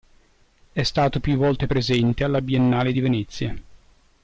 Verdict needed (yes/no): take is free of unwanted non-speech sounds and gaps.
yes